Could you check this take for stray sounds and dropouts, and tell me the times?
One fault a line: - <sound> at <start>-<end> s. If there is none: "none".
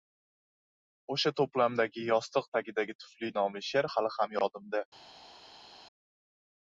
none